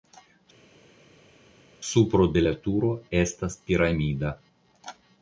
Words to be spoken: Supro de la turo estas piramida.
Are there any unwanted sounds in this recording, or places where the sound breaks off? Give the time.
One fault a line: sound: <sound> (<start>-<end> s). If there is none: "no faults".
no faults